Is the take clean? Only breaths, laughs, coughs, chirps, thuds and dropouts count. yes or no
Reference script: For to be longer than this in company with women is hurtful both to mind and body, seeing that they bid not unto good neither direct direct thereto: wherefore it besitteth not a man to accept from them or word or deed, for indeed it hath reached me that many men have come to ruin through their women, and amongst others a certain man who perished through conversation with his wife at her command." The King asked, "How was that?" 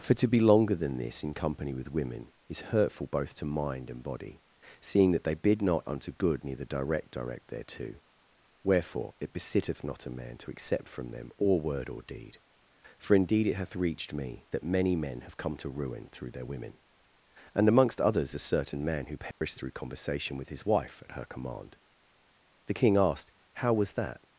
no